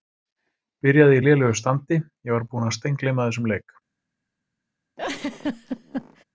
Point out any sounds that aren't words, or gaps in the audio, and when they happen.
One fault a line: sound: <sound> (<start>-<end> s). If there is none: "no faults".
sound: laugh (5.0-6.2 s)